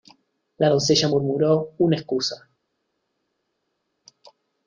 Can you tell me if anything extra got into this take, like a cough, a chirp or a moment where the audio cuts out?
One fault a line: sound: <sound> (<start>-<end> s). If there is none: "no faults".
no faults